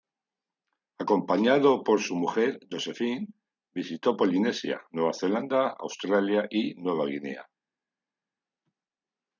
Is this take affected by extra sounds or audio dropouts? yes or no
no